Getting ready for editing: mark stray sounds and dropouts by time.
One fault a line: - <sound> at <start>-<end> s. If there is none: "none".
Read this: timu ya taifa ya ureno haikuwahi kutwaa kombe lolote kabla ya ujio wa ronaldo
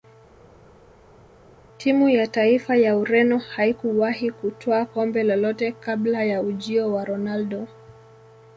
none